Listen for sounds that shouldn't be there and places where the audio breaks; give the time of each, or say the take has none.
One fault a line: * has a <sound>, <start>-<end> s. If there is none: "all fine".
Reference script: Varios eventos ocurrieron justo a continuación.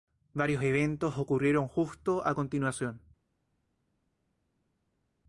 all fine